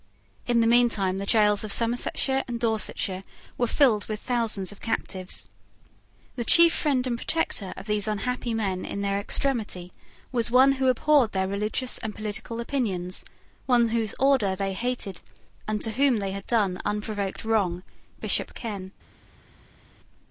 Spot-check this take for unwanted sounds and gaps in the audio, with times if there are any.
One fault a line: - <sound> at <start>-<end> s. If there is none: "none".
none